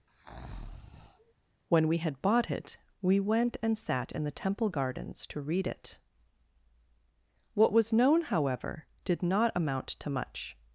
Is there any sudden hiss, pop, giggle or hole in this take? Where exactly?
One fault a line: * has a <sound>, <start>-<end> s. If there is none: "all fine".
* has a breath, 0.1-1.3 s